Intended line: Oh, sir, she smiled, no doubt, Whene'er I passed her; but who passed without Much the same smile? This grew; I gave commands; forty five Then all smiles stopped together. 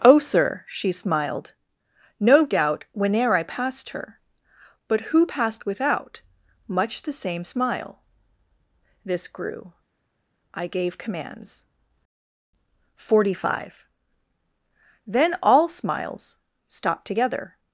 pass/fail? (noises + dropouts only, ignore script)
pass